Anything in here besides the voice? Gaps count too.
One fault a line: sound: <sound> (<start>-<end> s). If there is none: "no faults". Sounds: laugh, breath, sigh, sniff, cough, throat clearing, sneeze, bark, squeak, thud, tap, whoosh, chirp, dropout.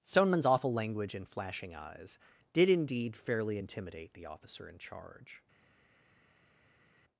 no faults